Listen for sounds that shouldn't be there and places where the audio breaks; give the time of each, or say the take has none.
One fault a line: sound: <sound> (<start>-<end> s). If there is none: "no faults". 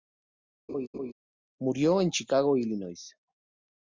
sound: laugh (0.7-1.1 s)